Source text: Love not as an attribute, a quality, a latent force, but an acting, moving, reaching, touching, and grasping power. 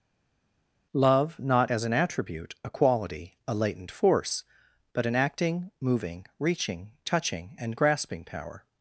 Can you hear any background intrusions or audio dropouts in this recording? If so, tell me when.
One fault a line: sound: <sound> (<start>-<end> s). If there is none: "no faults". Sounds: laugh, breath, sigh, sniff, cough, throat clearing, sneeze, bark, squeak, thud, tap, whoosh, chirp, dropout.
no faults